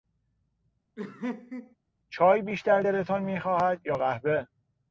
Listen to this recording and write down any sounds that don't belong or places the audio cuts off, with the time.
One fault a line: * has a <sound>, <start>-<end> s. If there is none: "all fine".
* has a laugh, 1.0-1.8 s